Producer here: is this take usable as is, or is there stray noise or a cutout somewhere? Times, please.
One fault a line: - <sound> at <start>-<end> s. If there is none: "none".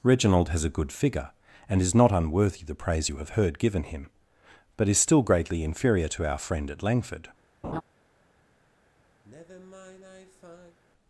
- laugh at 7.6-7.8 s
- sigh at 9.2-10.8 s